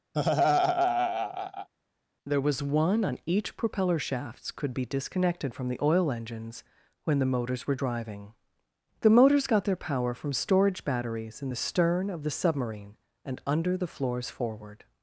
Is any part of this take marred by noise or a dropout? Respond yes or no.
yes